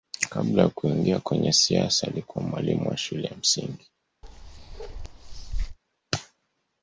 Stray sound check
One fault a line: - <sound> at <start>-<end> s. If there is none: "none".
- bark at 4.2-5.8 s